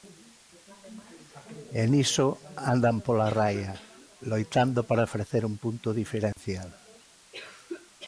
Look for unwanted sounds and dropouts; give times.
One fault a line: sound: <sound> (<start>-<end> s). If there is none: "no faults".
sound: dropout (6.3-6.4 s)